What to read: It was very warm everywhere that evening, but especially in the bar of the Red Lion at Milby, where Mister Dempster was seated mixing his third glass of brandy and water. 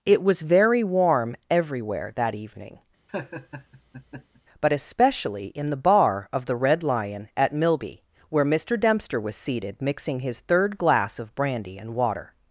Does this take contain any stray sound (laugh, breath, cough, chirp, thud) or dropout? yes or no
yes